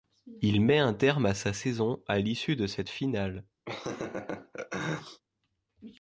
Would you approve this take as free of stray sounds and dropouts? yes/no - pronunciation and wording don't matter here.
no